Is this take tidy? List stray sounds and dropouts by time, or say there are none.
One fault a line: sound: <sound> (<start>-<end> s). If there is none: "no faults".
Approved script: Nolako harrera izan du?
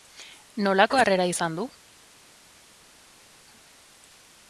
no faults